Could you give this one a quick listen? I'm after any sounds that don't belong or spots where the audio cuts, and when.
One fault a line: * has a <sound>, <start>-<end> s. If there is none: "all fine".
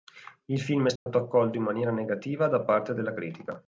* has a dropout, 1.0-1.1 s